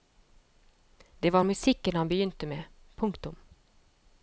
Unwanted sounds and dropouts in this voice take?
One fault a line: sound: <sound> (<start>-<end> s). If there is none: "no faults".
no faults